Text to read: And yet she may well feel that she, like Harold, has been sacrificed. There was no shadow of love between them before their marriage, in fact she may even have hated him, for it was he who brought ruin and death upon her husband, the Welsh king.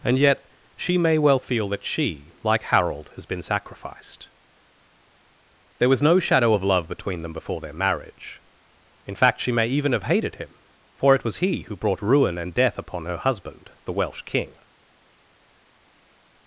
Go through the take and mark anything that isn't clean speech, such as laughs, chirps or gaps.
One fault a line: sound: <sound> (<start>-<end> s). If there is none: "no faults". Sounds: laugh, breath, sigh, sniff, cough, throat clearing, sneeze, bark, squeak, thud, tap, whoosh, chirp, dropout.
no faults